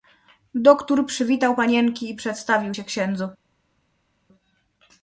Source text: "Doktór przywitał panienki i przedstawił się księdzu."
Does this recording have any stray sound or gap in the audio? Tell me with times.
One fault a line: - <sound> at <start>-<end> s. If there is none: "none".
none